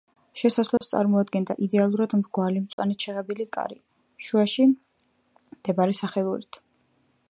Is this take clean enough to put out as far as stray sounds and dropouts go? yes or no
no